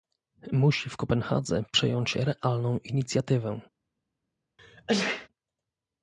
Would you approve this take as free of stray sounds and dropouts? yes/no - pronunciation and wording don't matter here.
no